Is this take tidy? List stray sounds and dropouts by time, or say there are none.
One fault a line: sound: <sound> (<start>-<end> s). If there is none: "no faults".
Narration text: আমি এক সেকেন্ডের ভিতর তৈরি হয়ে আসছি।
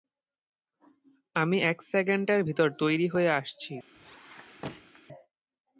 sound: squeak (3.9-5.0 s)